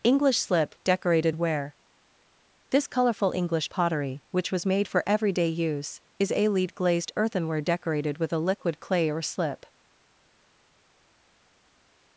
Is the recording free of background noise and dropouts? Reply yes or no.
yes